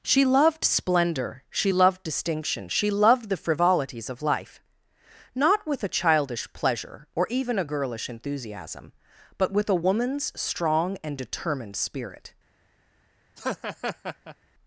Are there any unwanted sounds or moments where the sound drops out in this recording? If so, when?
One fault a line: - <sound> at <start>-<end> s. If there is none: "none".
- laugh at 13.4-14.4 s